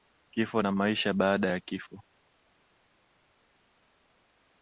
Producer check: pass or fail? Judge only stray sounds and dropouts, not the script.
pass